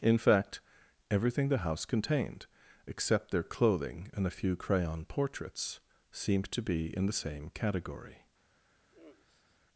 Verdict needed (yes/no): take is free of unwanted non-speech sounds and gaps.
no